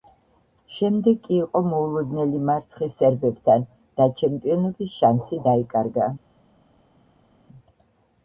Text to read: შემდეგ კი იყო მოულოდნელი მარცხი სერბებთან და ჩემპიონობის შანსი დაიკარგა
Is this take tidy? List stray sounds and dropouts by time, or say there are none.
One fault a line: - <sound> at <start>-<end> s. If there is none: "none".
none